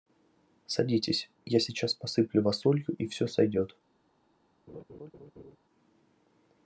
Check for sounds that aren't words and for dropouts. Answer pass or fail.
fail